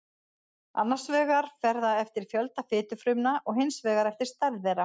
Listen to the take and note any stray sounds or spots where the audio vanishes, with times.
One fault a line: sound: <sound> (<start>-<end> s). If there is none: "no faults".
no faults